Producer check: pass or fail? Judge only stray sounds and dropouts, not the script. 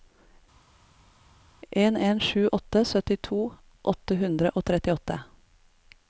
pass